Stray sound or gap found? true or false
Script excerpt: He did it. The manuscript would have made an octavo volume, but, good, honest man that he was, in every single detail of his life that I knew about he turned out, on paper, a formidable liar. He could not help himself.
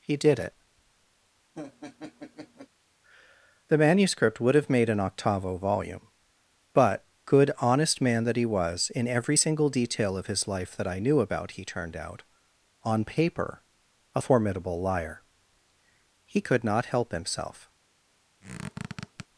true